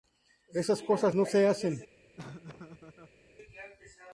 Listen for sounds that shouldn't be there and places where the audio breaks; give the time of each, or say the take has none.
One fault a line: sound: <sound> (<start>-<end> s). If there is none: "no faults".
sound: laugh (2.2-3.2 s)